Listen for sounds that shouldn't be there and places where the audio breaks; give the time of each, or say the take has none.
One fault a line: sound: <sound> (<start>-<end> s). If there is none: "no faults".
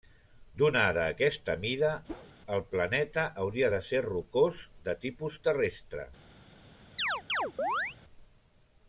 sound: whoosh (2.1-2.3 s)
sound: chirp (7.0-8.0 s)